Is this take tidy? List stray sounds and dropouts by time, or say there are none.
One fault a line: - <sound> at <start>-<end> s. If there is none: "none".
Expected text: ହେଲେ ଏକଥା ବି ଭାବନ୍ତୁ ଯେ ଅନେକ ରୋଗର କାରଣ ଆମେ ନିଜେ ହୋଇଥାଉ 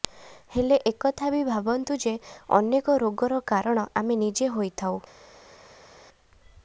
none